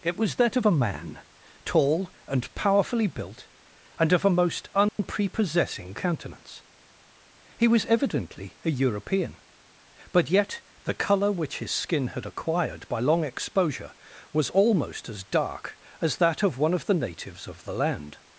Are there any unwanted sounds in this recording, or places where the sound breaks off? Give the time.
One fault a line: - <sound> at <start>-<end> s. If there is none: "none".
- dropout at 4.9-5.0 s